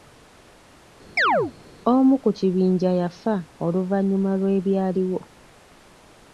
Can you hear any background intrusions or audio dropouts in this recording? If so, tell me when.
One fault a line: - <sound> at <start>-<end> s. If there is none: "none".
- chirp at 1.2-1.5 s